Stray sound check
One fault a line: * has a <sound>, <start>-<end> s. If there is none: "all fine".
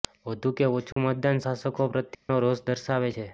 * has a dropout, 0.9-1.0 s
* has a dropout, 2.1-2.3 s